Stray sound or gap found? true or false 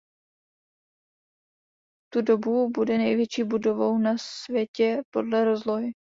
false